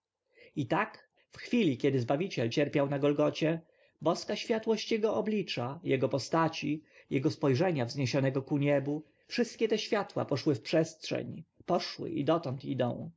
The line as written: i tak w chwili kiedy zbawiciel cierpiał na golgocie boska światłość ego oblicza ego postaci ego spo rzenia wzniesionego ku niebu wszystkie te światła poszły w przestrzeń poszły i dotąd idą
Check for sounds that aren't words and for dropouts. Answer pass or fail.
pass